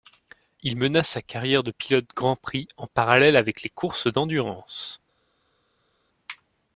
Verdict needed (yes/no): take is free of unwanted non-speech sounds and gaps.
yes